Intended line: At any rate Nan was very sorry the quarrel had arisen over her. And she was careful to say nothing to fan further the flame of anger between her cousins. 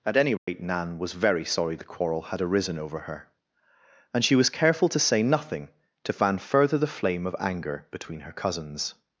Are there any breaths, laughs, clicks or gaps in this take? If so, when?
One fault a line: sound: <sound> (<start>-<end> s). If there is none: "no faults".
sound: dropout (0.4-0.5 s)